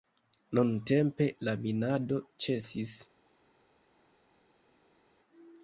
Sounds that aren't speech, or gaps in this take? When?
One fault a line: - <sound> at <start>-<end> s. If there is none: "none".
none